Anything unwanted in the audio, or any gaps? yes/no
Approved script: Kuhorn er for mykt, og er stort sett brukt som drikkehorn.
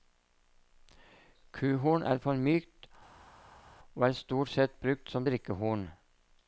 no